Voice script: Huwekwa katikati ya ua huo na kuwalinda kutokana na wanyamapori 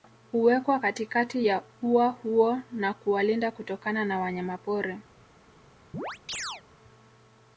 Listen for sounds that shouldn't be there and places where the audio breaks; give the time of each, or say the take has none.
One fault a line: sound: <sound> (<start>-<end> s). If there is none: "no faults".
sound: chirp (5.9-6.6 s)